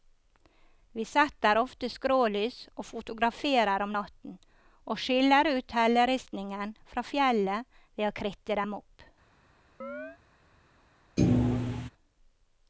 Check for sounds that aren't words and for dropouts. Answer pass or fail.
fail